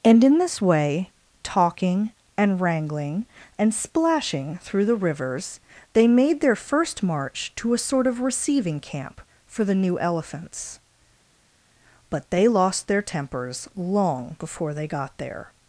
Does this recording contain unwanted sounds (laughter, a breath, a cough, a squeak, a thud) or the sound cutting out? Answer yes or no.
no